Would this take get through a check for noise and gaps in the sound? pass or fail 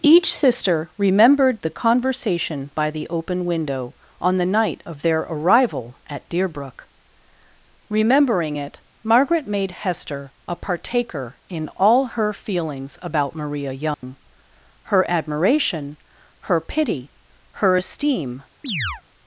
fail